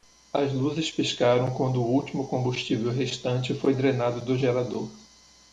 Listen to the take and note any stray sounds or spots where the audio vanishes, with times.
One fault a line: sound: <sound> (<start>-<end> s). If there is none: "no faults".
no faults